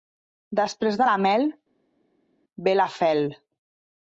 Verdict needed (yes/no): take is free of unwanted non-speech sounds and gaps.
yes